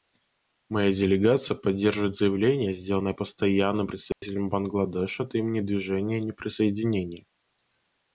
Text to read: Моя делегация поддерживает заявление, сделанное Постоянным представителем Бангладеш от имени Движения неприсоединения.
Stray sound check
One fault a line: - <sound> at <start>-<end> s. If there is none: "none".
- dropout at 4.1-4.2 s